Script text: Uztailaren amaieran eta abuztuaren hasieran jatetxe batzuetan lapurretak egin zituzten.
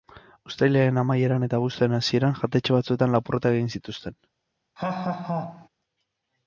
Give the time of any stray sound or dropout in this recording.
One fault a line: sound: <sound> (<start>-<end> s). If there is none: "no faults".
sound: laugh (4.8-5.7 s)